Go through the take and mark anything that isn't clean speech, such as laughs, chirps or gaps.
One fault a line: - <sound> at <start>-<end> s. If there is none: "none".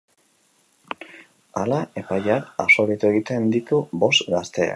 none